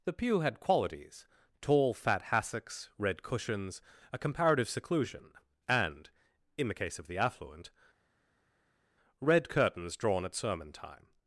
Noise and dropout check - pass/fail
pass